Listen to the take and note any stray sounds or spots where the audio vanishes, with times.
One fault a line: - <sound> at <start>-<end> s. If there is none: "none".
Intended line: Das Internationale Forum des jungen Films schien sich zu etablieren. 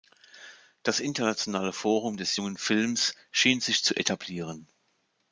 none